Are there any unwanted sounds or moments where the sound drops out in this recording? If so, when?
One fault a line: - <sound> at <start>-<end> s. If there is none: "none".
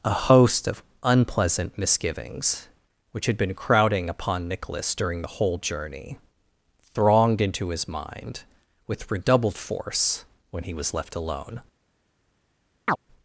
- chirp at 12.9-13.0 s